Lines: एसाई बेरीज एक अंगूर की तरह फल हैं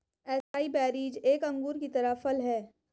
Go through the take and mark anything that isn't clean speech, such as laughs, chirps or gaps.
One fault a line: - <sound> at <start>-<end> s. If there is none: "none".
- dropout at 0.4-0.5 s